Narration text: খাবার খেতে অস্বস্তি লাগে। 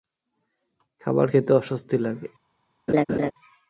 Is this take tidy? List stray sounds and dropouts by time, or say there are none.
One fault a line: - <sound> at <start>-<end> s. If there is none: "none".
- laugh at 2.9-3.3 s